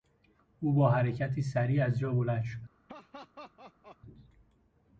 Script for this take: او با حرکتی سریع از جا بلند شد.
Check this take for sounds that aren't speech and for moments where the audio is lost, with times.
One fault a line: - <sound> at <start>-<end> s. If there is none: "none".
- laugh at 2.9-4.0 s